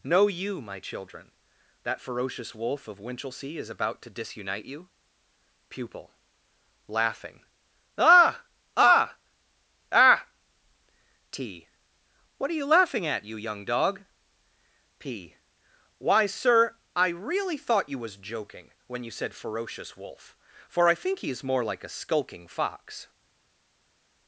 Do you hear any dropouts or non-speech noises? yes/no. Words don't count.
no